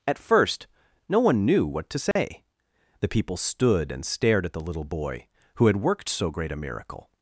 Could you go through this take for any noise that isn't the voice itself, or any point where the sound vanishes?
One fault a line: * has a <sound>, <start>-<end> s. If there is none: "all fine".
* has a dropout, 2.1-2.2 s